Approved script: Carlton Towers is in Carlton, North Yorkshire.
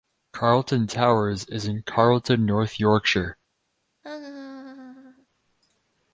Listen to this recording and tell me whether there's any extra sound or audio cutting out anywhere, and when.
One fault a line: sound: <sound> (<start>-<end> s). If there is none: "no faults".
sound: laugh (4.0-5.3 s)